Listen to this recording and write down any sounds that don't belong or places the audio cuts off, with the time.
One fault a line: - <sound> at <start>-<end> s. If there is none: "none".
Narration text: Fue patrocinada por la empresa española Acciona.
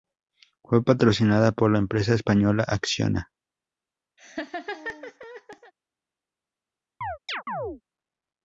- laugh at 4.2-5.7 s
- chirp at 7.0-7.8 s